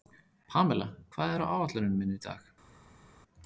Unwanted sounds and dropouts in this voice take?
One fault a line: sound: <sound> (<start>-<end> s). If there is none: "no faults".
no faults